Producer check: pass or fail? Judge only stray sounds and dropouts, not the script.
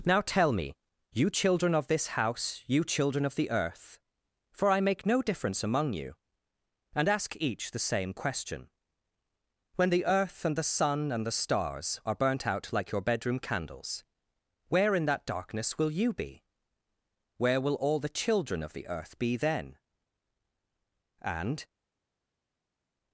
pass